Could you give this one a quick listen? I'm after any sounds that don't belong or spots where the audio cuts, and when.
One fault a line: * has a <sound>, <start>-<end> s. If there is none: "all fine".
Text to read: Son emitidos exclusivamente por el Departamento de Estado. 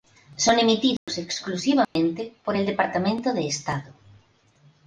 * has a dropout, 1.0-1.1 s
* has a dropout, 1.8-2.0 s